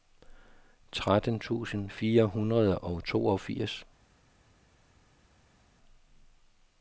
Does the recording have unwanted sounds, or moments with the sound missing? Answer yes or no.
no